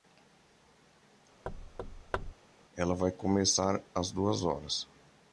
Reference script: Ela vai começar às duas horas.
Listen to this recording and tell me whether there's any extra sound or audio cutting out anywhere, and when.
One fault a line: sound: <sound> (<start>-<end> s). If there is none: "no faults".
sound: thud (1.5-2.3 s)